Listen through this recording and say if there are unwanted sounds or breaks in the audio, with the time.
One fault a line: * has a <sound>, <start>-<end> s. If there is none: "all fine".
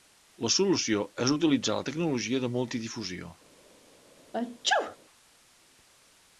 * has a sneeze, 4.3-5.0 s